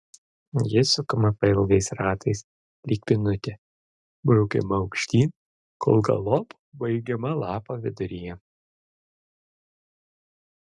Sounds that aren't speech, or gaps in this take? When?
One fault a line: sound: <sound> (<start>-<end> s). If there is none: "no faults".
no faults